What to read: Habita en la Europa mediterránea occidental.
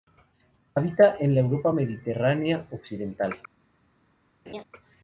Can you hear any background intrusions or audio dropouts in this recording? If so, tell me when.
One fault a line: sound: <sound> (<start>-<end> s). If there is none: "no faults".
sound: laugh (4.5-4.6 s)